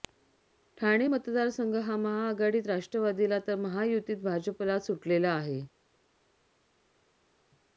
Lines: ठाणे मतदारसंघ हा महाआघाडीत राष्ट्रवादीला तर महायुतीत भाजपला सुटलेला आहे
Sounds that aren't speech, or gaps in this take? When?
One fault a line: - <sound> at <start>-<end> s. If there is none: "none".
none